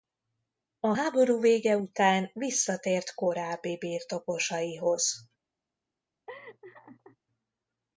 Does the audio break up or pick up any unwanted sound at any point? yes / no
yes